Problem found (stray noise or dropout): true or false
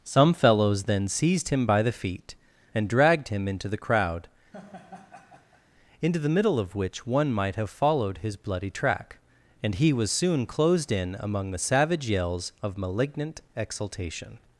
true